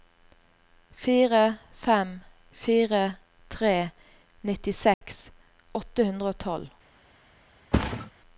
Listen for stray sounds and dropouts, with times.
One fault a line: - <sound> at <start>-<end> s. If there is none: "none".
- dropout at 4.9-5.0 s
- thud at 7.7-8.1 s